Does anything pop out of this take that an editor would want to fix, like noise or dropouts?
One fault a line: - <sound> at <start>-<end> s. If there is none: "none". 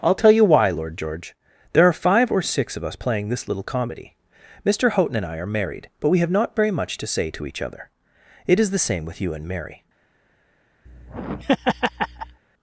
- laugh at 10.9-12.4 s